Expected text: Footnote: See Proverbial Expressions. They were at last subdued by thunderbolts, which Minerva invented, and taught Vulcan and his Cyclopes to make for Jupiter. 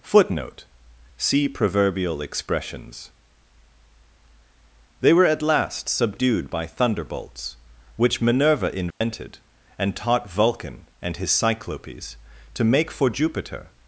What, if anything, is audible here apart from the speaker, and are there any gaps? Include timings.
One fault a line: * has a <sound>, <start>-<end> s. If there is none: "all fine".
* has a dropout, 8.9-9.0 s